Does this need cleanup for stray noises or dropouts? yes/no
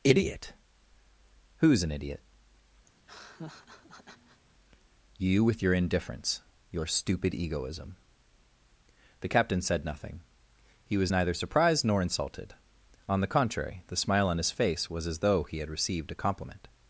yes